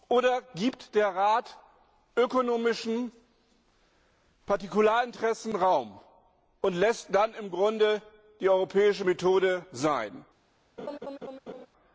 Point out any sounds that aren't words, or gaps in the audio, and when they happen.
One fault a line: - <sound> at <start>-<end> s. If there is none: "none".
- laugh at 10.8-11.7 s